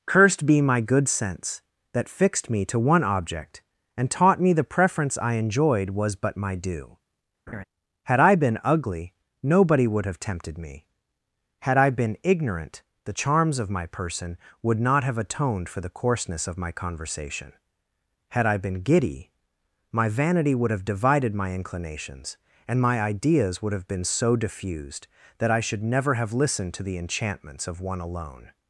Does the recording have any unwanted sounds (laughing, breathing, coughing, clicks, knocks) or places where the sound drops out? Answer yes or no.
yes